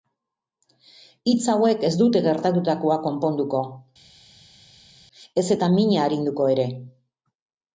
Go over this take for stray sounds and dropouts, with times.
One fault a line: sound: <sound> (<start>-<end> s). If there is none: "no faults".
no faults